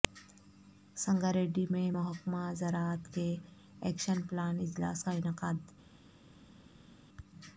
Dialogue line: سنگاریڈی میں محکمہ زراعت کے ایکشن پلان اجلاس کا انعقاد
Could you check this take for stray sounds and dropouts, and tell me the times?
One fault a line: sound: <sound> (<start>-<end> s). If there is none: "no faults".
no faults